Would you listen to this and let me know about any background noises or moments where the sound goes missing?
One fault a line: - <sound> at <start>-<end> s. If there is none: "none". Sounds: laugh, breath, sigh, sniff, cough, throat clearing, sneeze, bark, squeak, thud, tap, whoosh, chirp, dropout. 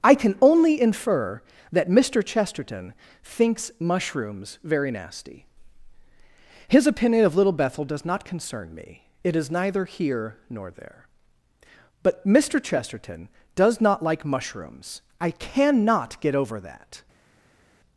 none